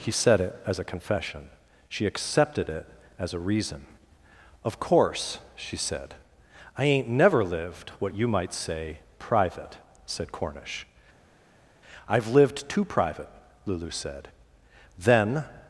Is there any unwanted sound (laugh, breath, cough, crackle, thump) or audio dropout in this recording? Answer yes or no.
no